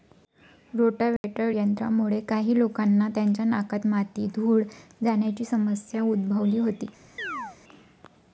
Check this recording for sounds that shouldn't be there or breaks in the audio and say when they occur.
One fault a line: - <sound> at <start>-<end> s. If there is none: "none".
- dropout at 1.2-1.2 s
- chirp at 7.2-7.6 s